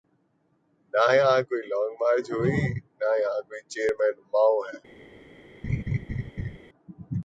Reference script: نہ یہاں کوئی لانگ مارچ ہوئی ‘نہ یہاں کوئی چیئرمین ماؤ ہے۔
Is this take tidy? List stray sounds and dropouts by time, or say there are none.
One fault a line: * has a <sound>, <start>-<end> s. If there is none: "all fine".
* has a laugh, 5.6-6.6 s